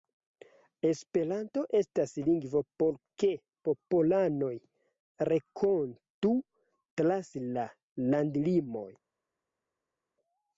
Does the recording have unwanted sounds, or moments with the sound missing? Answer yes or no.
no